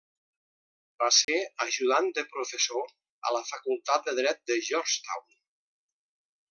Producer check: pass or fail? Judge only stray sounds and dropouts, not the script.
fail